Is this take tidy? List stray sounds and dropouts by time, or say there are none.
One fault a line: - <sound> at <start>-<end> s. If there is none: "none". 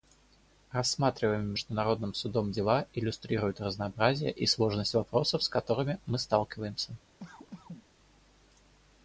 - cough at 7.2-7.9 s